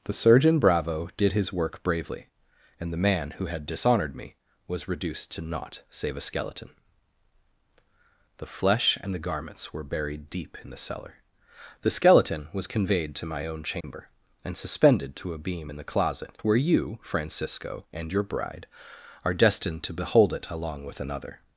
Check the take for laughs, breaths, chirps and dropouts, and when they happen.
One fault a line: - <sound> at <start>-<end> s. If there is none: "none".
- dropout at 13.8-13.8 s